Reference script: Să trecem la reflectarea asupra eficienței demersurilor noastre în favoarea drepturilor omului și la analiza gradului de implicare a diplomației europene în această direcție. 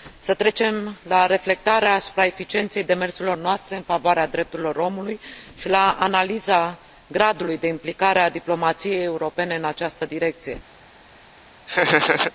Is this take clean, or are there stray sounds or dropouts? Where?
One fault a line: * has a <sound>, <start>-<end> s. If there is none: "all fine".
* has a laugh, 11.7-12.3 s